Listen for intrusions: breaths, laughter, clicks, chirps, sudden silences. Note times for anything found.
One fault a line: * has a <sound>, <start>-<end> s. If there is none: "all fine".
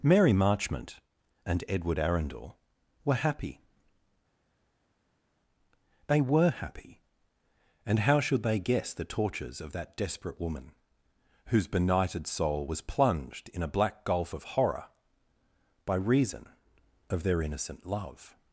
all fine